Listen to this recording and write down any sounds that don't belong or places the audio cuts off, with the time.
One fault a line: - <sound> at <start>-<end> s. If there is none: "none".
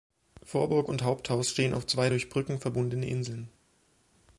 none